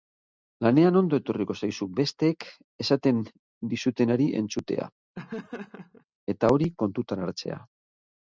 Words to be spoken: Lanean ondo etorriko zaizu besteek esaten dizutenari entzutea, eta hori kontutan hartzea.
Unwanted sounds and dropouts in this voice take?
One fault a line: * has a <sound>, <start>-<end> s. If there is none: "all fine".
* has a laugh, 5.1-6.0 s